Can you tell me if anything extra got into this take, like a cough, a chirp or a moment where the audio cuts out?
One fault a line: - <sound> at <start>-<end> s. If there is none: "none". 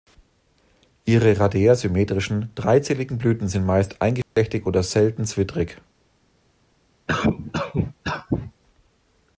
- dropout at 4.2-4.4 s
- cough at 7.1-8.5 s